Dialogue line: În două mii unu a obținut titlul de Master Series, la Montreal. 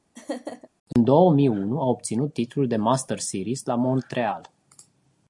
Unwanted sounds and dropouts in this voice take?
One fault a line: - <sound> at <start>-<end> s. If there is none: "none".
- laugh at 0.1-0.7 s